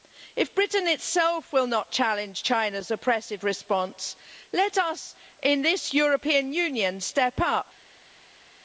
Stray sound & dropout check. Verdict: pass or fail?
pass